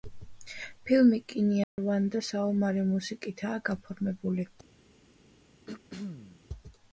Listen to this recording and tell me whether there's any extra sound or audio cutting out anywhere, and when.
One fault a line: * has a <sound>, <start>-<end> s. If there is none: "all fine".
* has a dropout, 1.6-1.8 s
* has a throat clearing, 5.7-6.4 s